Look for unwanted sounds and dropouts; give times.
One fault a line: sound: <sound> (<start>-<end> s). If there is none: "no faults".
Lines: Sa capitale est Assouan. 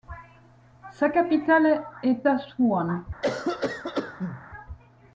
sound: cough (3.2-4.5 s)